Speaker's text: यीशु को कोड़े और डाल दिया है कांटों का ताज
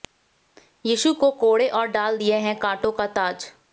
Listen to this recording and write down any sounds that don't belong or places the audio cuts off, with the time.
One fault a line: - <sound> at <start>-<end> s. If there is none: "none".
none